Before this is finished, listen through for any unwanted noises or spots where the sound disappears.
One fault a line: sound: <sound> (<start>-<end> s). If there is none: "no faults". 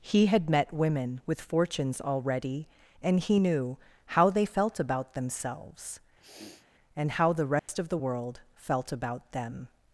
sound: sniff (6.2-6.7 s)
sound: dropout (7.6-7.7 s)